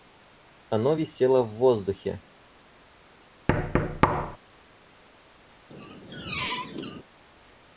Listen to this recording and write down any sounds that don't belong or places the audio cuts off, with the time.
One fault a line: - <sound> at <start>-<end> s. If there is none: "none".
- thud at 3.5-4.4 s
- squeak at 5.7-7.0 s